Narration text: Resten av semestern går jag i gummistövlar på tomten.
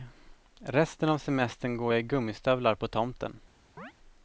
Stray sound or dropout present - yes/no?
yes